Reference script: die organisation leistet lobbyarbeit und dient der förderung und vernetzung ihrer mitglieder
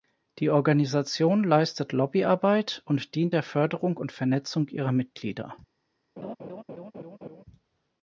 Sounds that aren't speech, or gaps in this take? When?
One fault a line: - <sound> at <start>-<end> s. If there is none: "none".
- laugh at 6.2-7.4 s